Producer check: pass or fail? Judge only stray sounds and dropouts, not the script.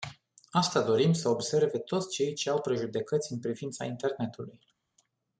pass